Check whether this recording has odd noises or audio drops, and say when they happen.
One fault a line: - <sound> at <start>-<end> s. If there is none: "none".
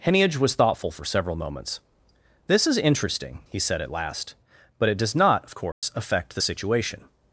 - dropout at 5.7-5.8 s